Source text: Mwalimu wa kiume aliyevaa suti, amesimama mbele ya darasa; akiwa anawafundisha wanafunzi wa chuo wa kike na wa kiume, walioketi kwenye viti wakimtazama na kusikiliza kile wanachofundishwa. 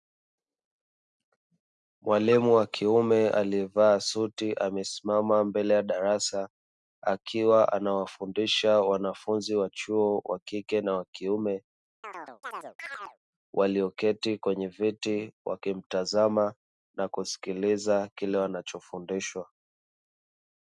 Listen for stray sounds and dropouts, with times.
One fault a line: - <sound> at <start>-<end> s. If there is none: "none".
- chirp at 12.0-13.2 s